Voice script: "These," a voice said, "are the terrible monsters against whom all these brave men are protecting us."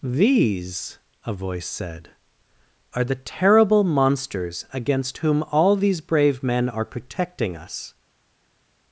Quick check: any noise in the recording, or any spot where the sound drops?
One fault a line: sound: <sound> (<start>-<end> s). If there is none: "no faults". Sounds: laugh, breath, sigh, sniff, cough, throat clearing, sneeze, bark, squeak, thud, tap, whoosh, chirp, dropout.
no faults